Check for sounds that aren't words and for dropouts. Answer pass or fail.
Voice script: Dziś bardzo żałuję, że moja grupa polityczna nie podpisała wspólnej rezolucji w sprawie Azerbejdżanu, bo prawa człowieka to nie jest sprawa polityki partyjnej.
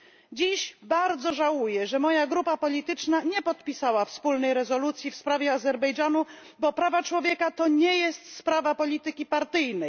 pass